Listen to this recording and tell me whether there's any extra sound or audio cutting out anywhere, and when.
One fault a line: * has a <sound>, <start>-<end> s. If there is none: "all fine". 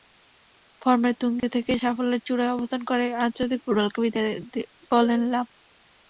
* has a dropout, 1.4-1.4 s